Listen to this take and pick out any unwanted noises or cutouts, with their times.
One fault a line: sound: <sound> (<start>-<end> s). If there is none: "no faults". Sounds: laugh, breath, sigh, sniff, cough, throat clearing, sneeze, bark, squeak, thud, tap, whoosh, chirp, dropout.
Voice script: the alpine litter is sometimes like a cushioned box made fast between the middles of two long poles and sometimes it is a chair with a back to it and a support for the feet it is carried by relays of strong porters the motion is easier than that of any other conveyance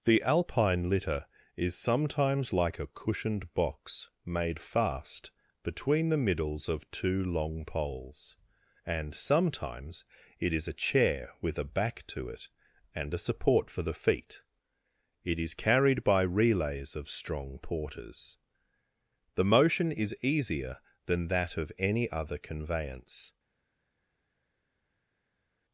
no faults